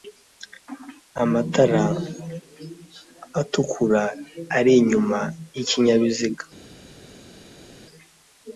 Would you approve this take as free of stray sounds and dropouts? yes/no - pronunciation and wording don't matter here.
yes